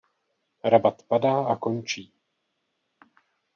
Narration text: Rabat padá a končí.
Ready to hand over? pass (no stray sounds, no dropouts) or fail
pass